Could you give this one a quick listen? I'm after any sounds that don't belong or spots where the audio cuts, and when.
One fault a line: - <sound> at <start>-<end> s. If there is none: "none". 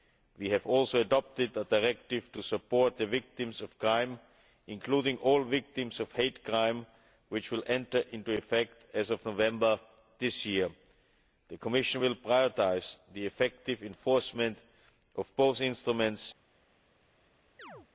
- chirp at 17.6-17.9 s